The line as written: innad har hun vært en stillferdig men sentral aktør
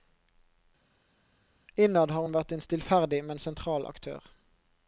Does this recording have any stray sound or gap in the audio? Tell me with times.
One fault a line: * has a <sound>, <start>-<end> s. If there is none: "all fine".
all fine